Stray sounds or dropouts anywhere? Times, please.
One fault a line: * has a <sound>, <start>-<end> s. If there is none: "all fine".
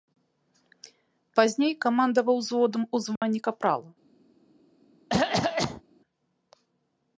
* has a dropout, 3.2-3.2 s
* has a cough, 5.1-5.8 s